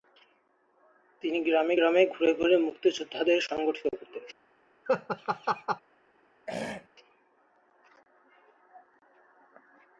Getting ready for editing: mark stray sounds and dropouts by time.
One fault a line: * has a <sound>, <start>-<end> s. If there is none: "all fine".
* has a laugh, 4.9-5.8 s
* has a throat clearing, 6.5-6.9 s